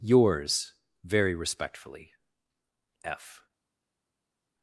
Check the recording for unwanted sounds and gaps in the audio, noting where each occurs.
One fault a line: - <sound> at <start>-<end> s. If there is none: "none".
none